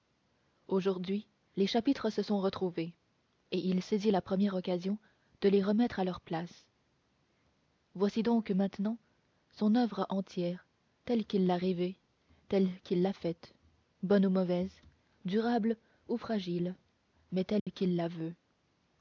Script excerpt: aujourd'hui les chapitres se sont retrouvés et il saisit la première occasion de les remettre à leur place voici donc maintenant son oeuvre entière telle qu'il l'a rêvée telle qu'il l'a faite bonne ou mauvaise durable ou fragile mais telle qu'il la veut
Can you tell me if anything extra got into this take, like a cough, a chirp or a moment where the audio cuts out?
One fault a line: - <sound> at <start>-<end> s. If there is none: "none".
- dropout at 17.6-17.7 s